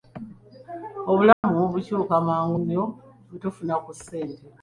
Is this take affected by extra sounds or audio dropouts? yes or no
yes